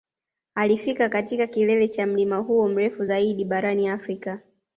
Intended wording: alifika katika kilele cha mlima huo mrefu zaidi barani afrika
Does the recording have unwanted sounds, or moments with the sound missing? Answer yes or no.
no